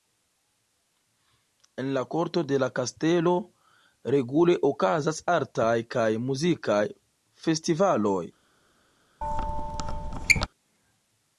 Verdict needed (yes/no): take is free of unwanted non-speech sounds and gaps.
no